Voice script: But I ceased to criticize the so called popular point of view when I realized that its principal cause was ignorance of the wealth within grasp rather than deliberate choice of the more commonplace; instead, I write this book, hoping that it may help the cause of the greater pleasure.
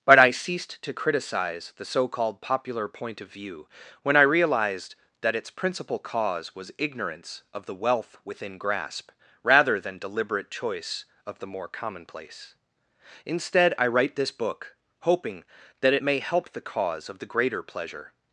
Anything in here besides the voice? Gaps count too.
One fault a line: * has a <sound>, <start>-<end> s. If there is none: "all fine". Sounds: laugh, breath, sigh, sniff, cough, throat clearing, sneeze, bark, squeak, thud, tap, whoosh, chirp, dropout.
all fine